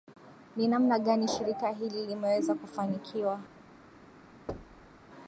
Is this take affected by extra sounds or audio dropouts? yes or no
yes